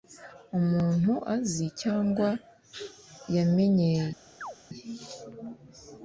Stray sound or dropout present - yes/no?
yes